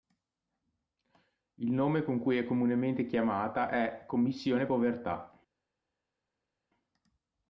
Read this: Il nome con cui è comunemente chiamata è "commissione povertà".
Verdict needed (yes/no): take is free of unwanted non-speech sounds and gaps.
yes